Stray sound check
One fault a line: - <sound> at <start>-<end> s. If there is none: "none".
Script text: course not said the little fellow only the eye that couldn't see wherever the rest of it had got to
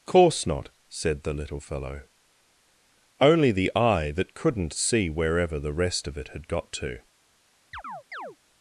- chirp at 7.7-8.4 s